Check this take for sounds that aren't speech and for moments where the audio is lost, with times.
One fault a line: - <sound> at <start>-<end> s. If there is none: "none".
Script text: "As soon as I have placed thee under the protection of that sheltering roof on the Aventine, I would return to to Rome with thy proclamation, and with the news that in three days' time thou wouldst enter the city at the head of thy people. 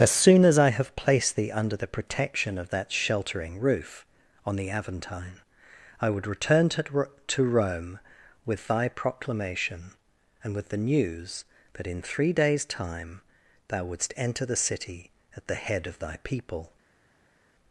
none